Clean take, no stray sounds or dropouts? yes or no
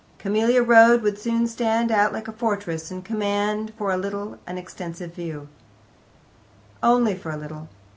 yes